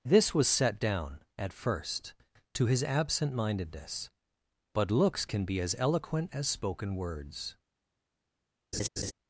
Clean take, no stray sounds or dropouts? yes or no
no